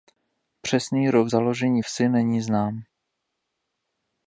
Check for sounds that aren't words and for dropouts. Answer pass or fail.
pass